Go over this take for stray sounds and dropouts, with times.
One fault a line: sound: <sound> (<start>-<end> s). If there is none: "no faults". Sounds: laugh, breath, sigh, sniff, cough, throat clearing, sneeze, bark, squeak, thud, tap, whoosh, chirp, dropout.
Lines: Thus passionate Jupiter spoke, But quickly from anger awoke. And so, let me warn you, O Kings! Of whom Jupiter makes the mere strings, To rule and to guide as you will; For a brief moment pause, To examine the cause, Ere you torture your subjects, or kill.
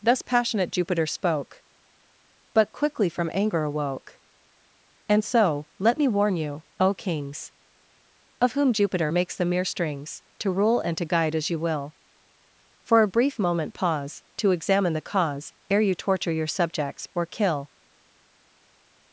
no faults